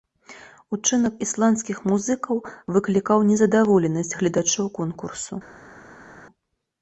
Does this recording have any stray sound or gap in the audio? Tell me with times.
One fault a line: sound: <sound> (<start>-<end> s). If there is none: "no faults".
no faults